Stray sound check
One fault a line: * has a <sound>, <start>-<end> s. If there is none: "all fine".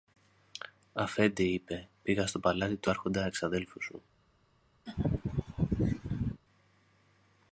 * has a laugh, 4.9-6.4 s